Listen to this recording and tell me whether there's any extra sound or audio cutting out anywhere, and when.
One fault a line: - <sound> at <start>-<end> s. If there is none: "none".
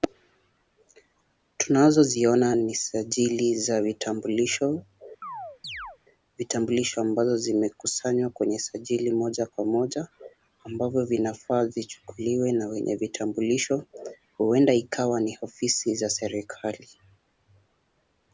- chirp at 5.2-6.0 s